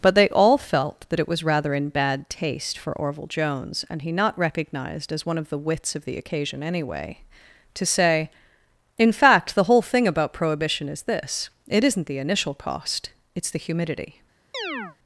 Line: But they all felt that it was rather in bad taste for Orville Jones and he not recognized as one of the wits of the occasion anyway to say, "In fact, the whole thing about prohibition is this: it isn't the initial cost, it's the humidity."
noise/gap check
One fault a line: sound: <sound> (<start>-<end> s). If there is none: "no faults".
sound: chirp (14.5-15.0 s)